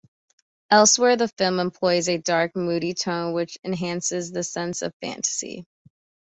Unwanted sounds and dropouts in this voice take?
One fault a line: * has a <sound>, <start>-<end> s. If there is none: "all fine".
all fine